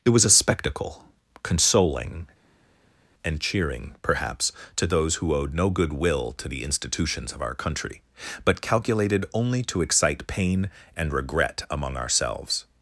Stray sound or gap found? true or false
false